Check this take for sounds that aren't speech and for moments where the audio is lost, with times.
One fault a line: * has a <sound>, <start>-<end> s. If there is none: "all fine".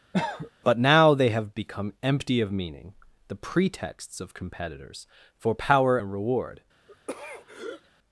* has a cough, 0.1-0.5 s
* has a throat clearing, 6.9-7.9 s